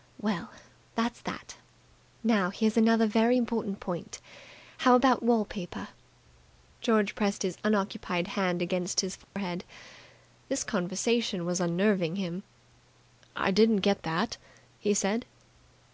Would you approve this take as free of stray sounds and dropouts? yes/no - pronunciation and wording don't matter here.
no